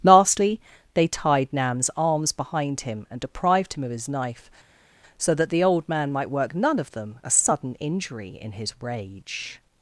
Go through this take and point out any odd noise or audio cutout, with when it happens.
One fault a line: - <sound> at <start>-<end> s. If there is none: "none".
none